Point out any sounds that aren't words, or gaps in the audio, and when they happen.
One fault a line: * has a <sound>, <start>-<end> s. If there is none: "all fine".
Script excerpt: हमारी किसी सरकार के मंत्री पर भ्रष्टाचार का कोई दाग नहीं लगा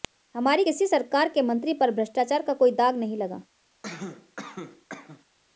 * has a cough, 3.8-5.2 s